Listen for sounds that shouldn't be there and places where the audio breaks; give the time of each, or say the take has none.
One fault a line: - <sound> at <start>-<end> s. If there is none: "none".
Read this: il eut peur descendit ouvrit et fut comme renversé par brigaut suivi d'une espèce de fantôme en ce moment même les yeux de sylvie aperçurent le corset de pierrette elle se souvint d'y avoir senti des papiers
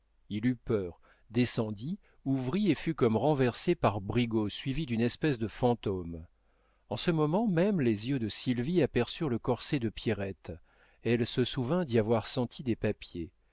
none